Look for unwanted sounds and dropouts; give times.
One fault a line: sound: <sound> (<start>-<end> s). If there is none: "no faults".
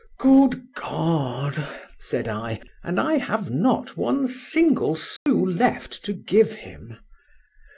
sound: dropout (5.2-5.3 s)